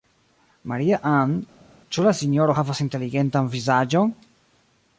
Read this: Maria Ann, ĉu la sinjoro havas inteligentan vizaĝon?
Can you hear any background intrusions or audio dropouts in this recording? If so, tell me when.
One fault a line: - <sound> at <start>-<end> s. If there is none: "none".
none